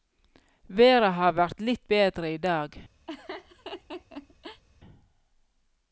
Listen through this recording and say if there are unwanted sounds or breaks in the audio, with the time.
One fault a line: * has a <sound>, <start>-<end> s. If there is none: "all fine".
* has a laugh, 3.1-4.6 s